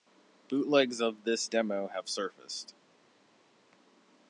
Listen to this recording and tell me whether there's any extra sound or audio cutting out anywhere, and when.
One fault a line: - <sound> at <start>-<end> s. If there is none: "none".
none